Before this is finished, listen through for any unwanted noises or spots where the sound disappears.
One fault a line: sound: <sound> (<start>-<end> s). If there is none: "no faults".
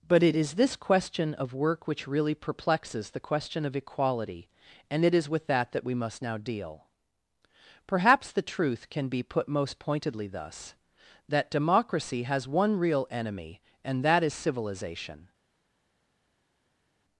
no faults